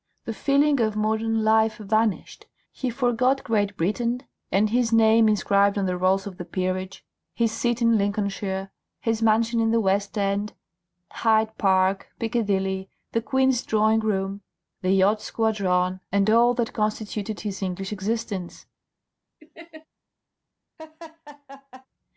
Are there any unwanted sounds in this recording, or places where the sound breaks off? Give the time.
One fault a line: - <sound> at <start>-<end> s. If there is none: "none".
- laugh at 19.4-19.9 s
- laugh at 20.8-21.9 s